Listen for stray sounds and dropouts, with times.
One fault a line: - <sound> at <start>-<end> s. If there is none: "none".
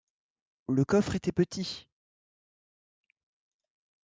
none